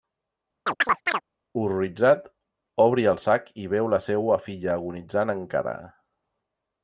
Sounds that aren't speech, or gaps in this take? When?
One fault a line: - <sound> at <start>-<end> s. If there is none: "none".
- chirp at 0.7-1.2 s